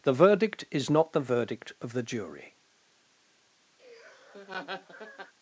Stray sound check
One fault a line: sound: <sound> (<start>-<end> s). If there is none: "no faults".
sound: laugh (3.8-5.3 s)